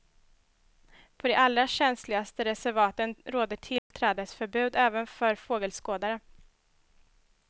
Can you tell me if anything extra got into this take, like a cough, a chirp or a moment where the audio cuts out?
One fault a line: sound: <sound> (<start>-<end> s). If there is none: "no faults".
sound: dropout (3.8-3.9 s)